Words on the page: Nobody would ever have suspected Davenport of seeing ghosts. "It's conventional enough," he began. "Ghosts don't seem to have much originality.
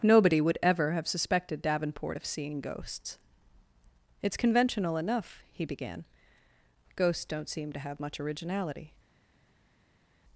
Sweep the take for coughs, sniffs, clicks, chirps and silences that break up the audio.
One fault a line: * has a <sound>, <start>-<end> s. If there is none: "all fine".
all fine